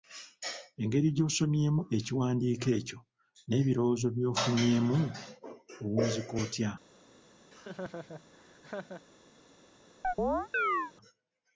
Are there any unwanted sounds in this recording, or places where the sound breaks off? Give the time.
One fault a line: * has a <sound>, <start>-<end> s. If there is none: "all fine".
* has a laugh, 7.5-9.0 s
* has a chirp, 10.0-10.9 s